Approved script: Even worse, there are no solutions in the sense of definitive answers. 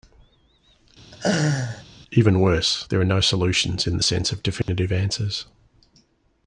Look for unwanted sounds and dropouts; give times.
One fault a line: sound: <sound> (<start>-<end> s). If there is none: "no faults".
sound: laugh (1.1-1.8 s)
sound: dropout (4.6-4.7 s)